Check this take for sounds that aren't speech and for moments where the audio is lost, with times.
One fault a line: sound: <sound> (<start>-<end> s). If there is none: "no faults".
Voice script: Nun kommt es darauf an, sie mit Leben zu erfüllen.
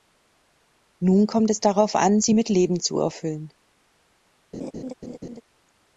sound: laugh (4.5-5.4 s)